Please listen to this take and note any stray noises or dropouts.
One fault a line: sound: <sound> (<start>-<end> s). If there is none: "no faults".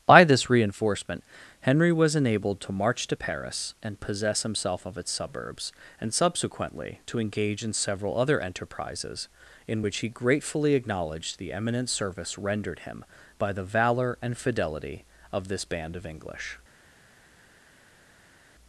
no faults